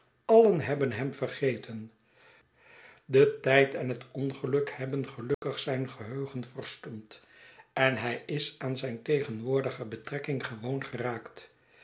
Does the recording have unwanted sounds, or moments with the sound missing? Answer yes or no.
yes